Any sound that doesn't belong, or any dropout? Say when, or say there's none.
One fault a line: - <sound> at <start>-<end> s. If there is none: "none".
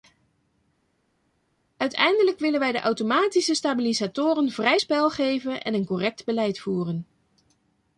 none